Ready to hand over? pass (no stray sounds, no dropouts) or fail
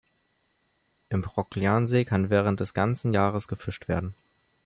pass